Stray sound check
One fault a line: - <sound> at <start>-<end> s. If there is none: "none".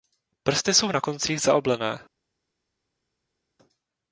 none